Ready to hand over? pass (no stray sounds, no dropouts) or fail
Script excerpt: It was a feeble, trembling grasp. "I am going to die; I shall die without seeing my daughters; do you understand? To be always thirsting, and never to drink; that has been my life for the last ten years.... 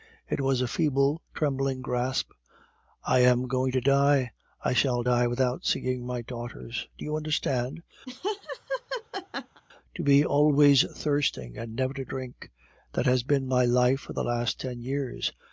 fail